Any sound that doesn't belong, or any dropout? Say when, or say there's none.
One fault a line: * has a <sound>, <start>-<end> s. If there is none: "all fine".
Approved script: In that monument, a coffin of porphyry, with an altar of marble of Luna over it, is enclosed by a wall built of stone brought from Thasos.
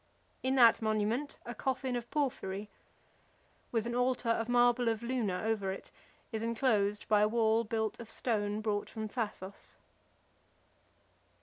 all fine